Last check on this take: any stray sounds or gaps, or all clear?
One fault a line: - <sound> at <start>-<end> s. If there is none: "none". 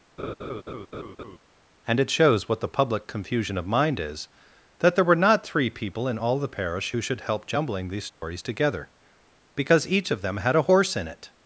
- laugh at 0.2-1.4 s
- dropout at 8.1-8.2 s